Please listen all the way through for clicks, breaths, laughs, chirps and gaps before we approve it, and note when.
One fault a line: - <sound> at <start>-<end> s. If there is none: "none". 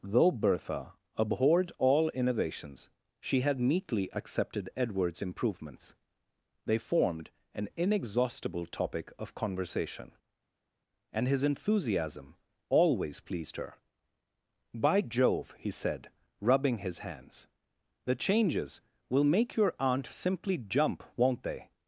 none